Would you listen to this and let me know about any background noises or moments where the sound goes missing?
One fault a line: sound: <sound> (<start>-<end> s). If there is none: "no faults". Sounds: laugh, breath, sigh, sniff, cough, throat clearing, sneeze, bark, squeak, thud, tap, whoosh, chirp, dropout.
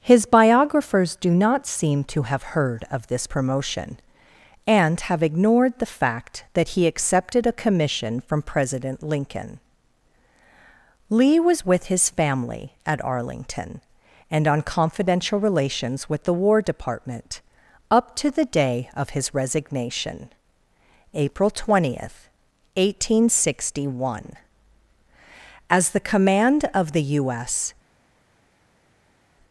no faults